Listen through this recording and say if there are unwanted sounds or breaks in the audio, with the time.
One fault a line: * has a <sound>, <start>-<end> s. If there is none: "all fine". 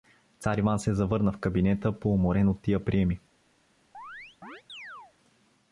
* has a chirp, 3.9-5.1 s